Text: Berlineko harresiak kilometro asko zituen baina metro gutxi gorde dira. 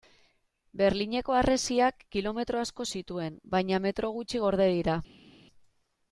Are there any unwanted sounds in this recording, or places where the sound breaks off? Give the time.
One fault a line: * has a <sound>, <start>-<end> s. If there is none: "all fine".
all fine